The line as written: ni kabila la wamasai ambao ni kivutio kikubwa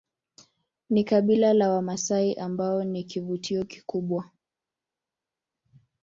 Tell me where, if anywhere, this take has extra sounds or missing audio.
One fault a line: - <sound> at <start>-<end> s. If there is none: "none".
none